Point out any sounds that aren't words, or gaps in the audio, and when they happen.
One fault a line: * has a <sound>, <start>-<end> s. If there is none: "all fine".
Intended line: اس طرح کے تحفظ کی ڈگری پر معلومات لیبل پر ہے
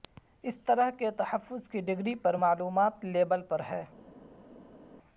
all fine